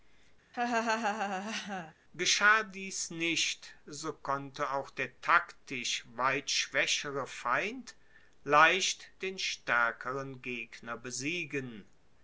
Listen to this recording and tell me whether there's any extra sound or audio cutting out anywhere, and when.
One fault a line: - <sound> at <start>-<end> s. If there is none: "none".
- laugh at 0.5-1.9 s